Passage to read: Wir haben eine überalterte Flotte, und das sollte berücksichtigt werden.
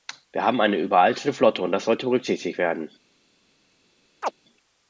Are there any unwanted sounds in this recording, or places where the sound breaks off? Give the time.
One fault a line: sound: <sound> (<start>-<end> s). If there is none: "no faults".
sound: chirp (4.2-4.3 s)